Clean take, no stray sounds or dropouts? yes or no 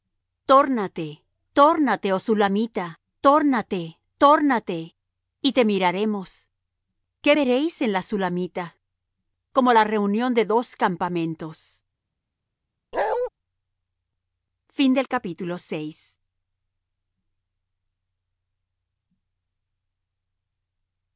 no